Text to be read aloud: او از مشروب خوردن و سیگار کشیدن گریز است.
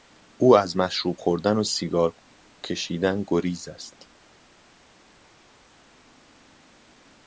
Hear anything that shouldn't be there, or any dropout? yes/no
no